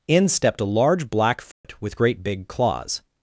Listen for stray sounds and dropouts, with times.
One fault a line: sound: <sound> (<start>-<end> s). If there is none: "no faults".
sound: dropout (1.5-1.6 s)